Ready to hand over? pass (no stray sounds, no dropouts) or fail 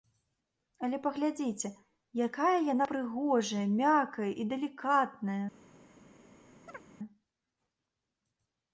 fail